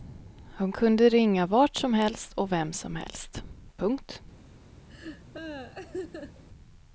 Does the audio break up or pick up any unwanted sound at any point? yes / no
yes